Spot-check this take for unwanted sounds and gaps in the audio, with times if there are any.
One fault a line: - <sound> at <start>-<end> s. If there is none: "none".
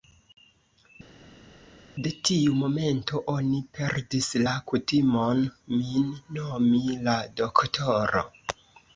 none